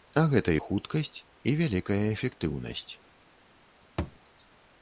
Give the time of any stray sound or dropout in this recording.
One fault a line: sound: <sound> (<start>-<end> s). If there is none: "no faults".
sound: thud (4.0-4.2 s)